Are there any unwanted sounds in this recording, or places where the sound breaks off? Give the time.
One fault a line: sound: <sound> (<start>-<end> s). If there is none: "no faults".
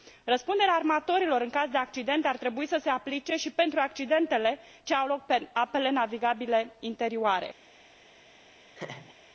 sound: laugh (8.7-9.2 s)